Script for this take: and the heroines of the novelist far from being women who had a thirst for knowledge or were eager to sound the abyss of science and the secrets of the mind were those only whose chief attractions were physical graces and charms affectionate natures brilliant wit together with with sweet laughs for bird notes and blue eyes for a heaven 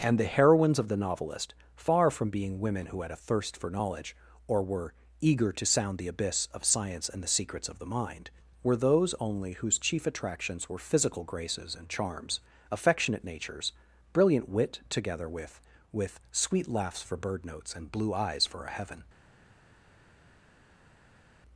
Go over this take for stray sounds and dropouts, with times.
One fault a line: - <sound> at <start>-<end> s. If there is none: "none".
none